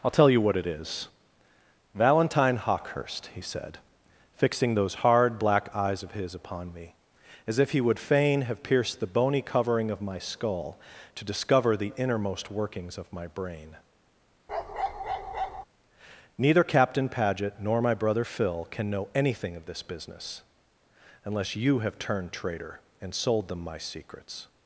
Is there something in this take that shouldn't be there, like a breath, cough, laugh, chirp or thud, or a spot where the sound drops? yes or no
yes